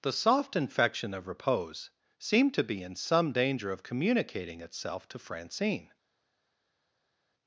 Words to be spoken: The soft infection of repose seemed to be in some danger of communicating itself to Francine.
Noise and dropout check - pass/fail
pass